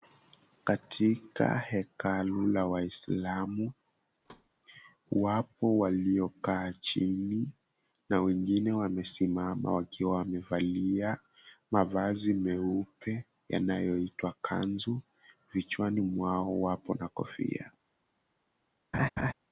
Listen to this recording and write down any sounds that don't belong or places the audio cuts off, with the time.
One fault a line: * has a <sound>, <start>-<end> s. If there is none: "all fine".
* has a thud, 4.2-4.5 s
* has a laugh, 18.9-19.3 s